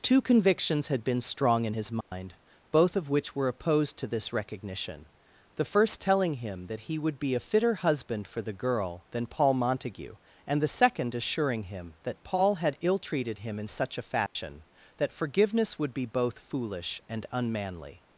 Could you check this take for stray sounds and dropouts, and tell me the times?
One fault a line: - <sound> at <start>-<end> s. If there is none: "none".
- dropout at 2.0-2.1 s
- dropout at 14.3-14.4 s